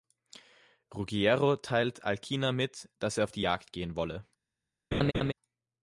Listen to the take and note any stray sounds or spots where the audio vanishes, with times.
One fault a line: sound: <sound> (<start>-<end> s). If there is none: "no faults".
sound: laugh (4.9-5.3 s)